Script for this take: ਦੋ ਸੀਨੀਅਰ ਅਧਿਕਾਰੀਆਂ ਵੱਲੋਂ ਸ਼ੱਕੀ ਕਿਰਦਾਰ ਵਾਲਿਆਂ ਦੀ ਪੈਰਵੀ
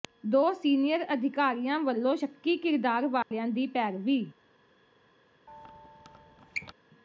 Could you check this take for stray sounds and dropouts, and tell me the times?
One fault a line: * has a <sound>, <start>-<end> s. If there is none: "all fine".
* has a dropout, 3.2-3.3 s
* has a squeak, 5.5-6.7 s